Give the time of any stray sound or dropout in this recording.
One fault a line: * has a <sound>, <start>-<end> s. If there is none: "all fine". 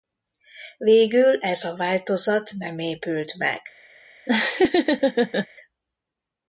* has a laugh, 4.3-5.5 s